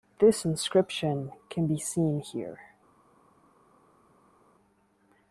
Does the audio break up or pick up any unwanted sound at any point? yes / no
no